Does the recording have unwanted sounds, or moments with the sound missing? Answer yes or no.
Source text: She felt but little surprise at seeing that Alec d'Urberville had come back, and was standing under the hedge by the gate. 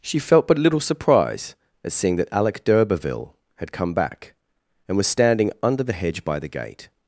no